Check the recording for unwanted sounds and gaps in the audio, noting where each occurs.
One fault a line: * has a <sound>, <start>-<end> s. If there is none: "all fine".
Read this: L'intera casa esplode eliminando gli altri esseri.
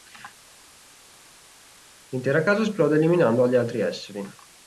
all fine